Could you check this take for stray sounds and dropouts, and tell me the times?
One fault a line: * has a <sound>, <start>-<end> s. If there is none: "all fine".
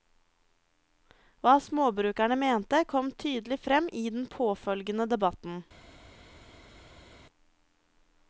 all fine